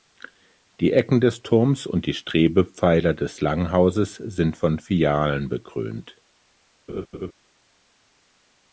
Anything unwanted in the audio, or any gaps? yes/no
yes